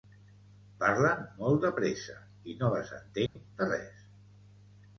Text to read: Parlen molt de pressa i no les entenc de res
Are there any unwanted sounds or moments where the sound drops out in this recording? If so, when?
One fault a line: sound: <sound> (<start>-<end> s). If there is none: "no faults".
sound: dropout (3.3-3.4 s)